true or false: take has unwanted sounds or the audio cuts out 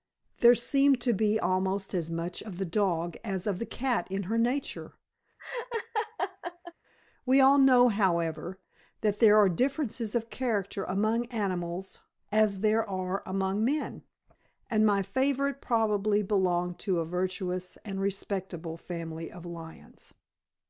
true